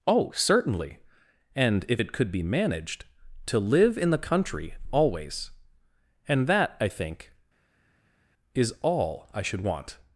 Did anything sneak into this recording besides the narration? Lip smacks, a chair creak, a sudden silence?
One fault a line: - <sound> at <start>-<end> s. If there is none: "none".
none